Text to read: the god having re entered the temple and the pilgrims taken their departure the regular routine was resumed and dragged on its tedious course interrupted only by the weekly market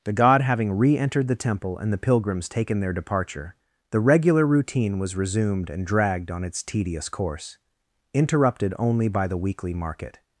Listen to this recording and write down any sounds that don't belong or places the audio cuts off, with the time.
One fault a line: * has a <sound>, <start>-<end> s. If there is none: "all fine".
all fine